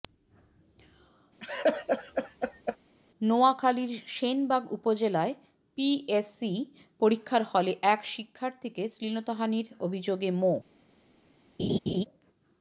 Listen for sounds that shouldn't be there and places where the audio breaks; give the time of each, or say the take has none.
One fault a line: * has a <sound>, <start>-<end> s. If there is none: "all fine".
* has a laugh, 1.4-2.8 s
* has a laugh, 11.6-12.1 s